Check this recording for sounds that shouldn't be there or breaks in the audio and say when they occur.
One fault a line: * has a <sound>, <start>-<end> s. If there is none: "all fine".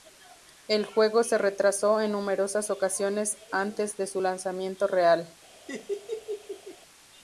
* has a laugh, 5.7-6.8 s